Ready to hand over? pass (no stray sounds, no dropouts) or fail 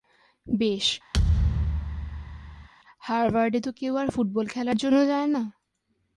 fail